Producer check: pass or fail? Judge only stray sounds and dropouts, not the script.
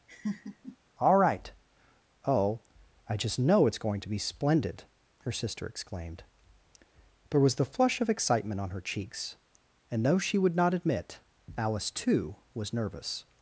fail